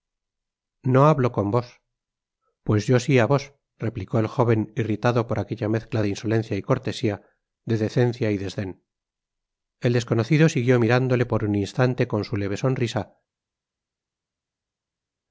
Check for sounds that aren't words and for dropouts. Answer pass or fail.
pass